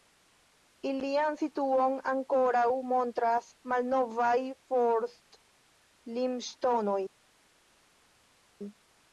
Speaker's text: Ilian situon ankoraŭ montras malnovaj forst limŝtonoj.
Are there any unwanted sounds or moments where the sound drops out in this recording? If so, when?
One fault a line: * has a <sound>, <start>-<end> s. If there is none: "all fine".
all fine